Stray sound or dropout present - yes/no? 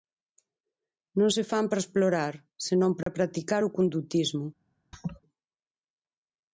yes